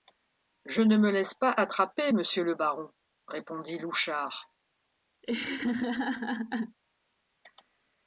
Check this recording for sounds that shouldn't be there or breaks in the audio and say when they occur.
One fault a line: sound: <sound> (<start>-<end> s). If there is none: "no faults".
sound: laugh (5.2-6.8 s)